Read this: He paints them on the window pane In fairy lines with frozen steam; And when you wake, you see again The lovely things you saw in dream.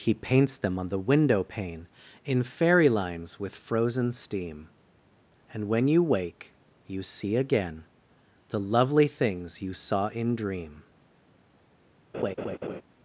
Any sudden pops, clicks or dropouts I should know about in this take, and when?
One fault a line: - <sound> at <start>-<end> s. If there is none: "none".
- laugh at 12.1-12.8 s